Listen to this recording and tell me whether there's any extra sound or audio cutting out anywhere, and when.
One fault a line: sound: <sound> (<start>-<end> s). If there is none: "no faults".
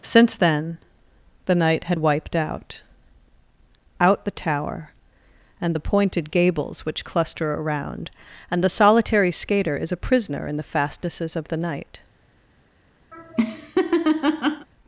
sound: laugh (13.1-14.7 s)